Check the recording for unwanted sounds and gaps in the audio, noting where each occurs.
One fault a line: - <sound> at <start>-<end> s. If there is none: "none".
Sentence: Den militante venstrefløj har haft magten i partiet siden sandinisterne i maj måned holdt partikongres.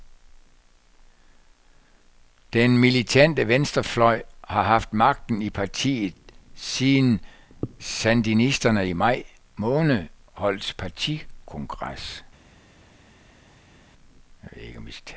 none